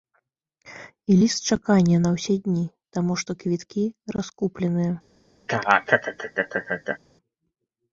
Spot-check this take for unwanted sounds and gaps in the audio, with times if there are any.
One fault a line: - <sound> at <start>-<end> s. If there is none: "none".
- laugh at 5.5-7.0 s